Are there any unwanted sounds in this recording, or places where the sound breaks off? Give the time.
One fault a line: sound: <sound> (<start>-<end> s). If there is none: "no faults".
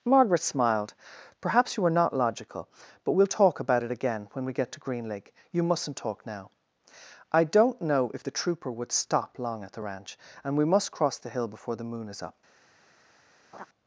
sound: laugh (13.5-13.7 s)